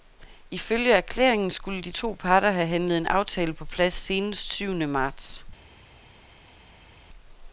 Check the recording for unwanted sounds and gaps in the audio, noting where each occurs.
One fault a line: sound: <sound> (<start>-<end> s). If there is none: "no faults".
no faults